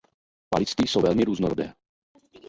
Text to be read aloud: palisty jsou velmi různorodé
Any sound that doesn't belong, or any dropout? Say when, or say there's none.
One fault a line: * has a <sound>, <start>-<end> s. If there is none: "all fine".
all fine